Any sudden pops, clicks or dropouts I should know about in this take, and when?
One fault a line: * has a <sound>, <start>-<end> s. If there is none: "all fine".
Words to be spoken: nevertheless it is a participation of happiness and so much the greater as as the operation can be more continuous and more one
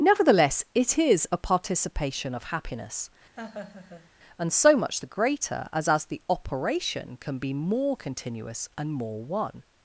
* has a laugh, 3.4-4.1 s